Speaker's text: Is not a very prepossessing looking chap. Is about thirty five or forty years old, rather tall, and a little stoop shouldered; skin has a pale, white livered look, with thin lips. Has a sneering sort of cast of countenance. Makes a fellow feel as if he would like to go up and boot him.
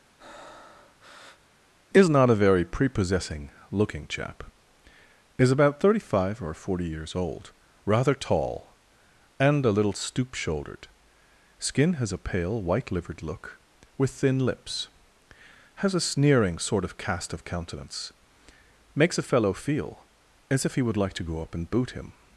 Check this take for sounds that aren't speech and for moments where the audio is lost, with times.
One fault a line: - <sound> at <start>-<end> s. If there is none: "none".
- breath at 0.2-1.6 s